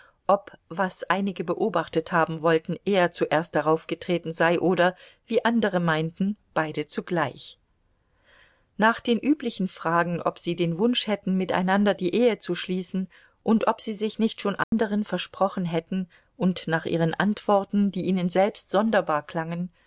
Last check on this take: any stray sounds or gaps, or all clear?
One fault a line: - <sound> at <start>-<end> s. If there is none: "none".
- dropout at 14.6-14.7 s